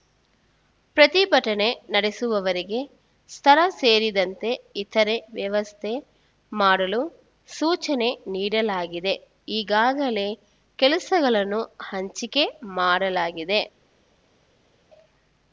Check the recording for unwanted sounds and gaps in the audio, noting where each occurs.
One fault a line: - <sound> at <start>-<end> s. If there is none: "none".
none